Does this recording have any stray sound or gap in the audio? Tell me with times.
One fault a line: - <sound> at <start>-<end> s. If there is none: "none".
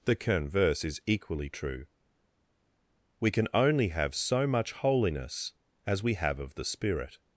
none